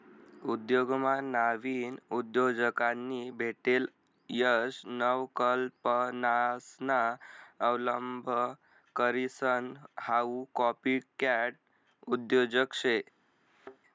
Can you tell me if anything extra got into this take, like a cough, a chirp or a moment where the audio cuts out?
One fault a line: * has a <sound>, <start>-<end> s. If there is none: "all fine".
* has a thud, 13.5-13.8 s